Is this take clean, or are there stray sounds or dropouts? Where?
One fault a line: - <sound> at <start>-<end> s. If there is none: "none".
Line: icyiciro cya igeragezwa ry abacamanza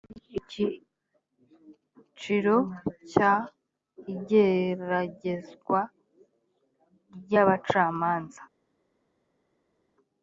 none